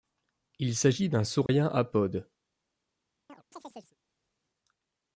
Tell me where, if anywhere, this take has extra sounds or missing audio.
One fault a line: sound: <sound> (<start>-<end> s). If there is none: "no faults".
sound: dropout (1.5-1.5 s)
sound: chirp (3.3-4.0 s)